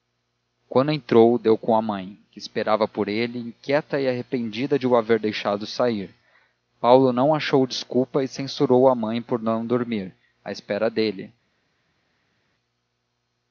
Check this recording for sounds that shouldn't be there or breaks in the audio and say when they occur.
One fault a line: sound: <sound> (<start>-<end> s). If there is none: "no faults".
no faults